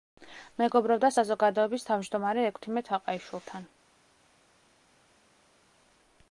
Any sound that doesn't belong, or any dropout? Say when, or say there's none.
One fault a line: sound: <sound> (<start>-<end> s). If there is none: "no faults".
no faults